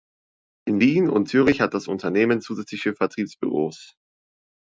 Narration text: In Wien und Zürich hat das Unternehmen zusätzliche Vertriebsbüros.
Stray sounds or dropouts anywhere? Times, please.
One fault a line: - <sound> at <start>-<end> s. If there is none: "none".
none